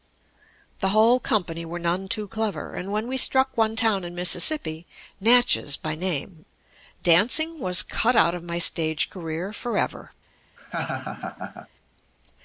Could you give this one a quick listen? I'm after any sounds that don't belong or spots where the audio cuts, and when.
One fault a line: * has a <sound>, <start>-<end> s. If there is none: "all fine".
* has a laugh, 10.6-11.7 s